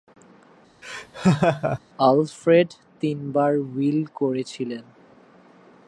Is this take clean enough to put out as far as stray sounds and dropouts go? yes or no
no